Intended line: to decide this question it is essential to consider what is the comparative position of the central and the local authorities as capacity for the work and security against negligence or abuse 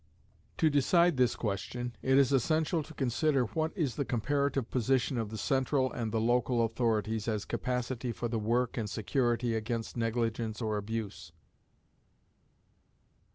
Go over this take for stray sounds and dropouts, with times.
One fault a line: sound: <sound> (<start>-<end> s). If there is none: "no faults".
no faults